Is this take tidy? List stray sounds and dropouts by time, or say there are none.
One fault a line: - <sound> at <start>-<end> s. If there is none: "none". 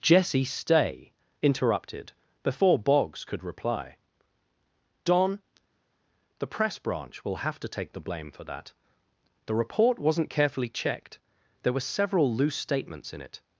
none